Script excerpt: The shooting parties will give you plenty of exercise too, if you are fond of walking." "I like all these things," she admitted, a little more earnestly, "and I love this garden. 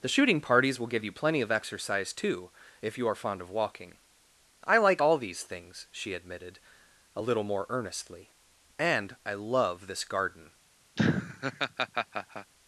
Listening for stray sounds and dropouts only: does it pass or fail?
fail